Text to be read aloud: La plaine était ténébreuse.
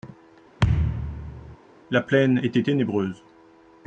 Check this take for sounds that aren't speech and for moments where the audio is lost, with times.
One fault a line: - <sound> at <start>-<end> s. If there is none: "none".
- thud at 0.6-1.6 s